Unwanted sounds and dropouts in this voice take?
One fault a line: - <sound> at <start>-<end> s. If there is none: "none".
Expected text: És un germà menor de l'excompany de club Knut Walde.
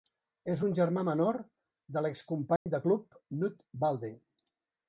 - dropout at 2.6-2.7 s